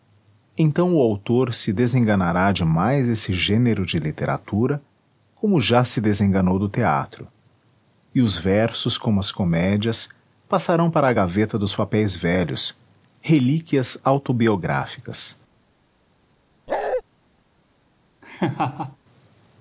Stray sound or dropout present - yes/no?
yes